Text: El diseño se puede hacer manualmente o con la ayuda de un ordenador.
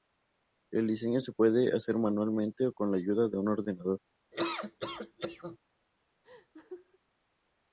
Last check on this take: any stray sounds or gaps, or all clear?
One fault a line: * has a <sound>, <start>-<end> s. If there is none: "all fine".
* has a laugh, 4.3-5.6 s
* has a laugh, 6.2-7.0 s